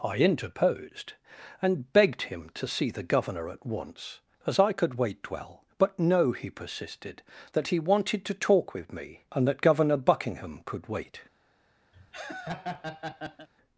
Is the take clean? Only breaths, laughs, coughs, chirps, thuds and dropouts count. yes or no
no